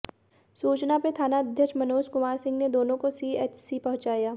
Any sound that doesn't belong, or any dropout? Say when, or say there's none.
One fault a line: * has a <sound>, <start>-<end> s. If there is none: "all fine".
all fine